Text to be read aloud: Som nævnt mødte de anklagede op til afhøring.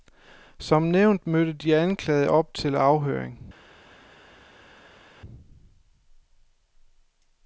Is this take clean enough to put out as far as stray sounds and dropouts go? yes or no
yes